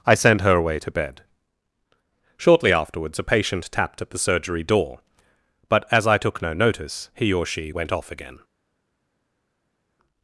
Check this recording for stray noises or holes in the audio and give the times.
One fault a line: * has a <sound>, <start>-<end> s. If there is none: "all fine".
all fine